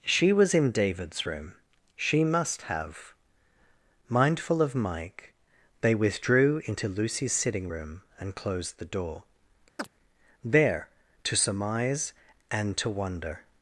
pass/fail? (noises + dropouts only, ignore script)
fail